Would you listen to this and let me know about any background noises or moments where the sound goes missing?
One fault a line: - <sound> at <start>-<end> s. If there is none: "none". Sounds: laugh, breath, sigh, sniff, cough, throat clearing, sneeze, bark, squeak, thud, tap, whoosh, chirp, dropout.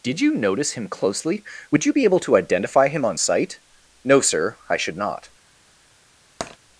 - tap at 6.4-6.6 s